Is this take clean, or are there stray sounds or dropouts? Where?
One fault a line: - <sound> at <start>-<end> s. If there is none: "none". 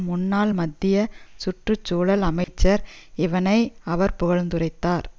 - dropout at 2.4-2.5 s